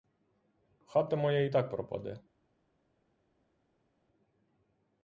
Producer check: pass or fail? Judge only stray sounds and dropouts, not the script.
pass